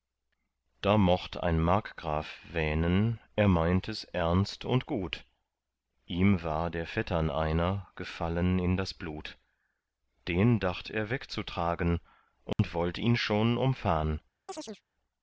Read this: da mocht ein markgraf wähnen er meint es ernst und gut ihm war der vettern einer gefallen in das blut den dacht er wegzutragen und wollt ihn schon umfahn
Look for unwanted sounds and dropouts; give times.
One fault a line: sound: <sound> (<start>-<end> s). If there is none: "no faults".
sound: dropout (12.5-12.6 s)
sound: chirp (14.5-14.8 s)